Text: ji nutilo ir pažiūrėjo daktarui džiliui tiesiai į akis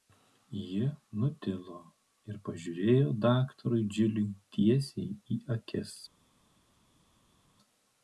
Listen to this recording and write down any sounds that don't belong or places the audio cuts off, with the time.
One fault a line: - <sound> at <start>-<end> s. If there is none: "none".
none